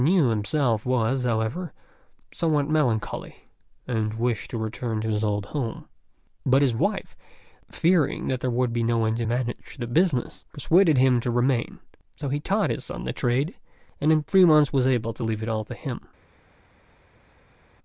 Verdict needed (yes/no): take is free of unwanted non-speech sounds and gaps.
yes